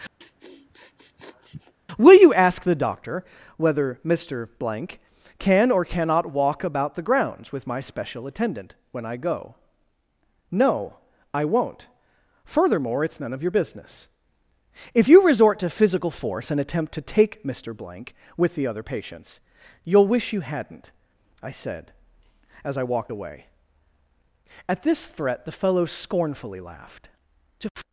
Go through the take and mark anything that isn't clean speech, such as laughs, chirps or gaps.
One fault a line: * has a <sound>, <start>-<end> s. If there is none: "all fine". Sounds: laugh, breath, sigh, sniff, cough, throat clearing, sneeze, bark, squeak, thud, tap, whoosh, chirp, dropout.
* has a sniff, 0.2-1.7 s